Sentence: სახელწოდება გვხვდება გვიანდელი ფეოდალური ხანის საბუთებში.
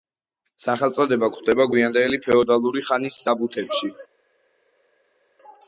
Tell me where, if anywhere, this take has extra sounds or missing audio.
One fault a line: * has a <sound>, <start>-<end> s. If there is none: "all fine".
all fine